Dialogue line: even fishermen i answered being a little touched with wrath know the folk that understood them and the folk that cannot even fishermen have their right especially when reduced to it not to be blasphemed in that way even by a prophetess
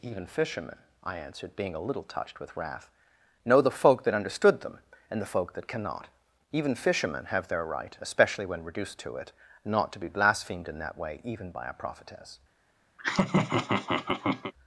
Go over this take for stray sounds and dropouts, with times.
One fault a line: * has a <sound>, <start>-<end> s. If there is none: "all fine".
* has a laugh, 13.0-14.5 s